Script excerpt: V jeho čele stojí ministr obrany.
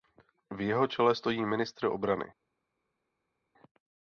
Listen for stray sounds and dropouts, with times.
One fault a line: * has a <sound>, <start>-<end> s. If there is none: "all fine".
all fine